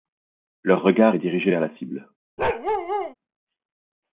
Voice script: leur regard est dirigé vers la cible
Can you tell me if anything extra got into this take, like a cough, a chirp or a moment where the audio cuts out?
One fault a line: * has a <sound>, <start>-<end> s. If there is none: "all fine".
* has a bark, 2.4-3.1 s